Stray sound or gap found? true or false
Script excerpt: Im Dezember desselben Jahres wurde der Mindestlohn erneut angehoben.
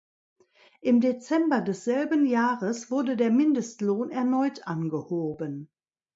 false